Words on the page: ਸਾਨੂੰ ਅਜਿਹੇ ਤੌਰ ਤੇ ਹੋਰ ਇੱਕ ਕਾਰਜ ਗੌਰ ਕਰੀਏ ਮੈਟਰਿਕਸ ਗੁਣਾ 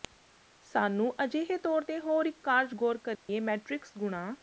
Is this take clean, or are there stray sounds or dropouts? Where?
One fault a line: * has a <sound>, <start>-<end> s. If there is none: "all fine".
* has a dropout, 3.1-3.3 s